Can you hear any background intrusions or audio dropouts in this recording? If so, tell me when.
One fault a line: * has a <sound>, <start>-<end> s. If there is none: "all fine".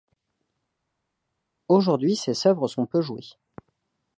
all fine